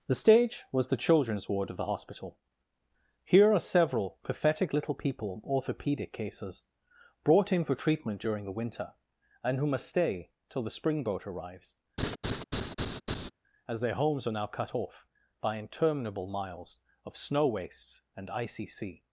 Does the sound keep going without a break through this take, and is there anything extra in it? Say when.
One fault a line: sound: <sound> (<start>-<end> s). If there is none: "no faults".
sound: laugh (12.0-13.3 s)